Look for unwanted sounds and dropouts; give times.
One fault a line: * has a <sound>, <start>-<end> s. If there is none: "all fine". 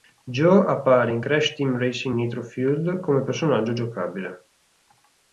all fine